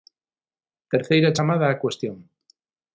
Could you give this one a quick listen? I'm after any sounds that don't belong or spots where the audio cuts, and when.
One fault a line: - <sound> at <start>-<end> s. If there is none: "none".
none